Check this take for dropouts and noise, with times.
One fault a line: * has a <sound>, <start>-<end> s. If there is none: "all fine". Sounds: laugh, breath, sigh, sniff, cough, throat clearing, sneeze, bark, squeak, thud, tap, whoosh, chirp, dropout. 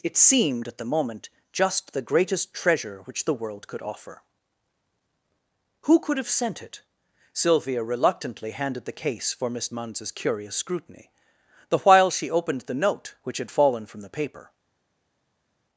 all fine